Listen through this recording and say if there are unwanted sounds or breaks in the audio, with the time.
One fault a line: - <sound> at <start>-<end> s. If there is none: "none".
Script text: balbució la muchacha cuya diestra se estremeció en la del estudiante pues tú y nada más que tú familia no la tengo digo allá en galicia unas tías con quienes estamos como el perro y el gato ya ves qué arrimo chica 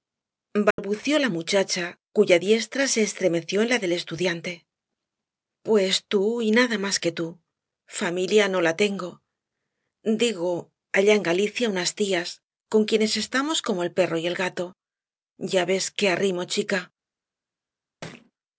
- dropout at 0.7-0.8 s
- thud at 18.0-18.3 s